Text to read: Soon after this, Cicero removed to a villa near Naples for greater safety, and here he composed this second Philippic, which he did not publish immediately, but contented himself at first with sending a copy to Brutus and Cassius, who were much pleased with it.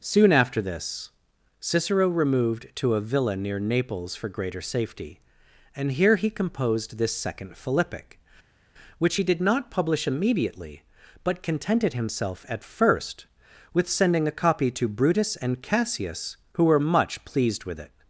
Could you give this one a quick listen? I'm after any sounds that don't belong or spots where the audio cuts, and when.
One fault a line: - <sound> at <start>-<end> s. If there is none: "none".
none